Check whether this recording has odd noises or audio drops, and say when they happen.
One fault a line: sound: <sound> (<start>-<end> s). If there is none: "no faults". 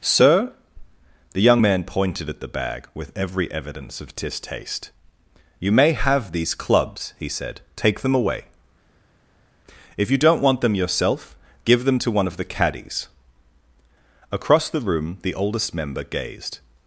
no faults